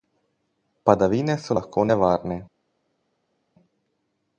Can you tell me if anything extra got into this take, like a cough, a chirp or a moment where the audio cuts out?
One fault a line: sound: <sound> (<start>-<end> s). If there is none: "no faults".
no faults